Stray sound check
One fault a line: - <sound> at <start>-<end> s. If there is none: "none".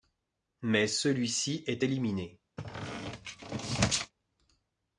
- squeak at 2.6-4.1 s